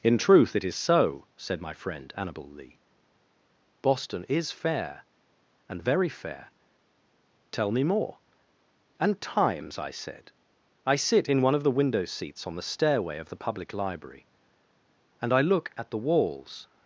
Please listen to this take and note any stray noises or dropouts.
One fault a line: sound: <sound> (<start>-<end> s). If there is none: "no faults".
no faults